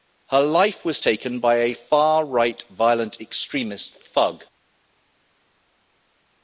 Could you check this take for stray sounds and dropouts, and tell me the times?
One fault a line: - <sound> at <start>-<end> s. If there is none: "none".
none